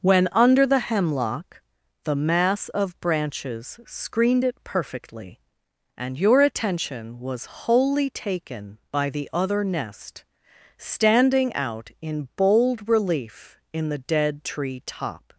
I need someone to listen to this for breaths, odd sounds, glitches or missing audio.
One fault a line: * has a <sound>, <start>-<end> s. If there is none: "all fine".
all fine